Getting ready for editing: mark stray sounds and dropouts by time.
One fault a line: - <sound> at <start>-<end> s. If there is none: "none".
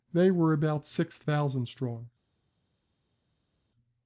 none